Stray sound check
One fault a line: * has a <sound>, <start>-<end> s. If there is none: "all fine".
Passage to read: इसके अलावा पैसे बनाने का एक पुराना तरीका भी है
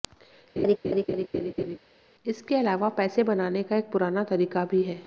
* has a laugh, 0.6-1.8 s